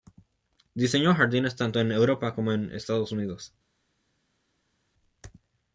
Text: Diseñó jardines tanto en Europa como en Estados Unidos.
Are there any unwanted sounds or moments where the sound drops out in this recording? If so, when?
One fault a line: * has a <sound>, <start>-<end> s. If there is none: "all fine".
all fine